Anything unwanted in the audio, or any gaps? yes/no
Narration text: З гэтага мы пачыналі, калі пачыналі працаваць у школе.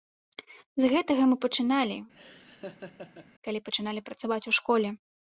yes